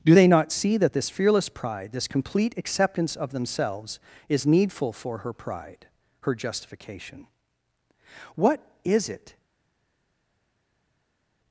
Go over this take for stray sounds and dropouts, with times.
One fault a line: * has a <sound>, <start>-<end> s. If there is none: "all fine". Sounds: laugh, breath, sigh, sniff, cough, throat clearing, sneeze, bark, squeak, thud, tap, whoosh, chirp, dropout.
all fine